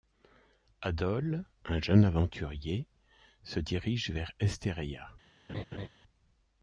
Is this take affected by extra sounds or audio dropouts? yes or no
yes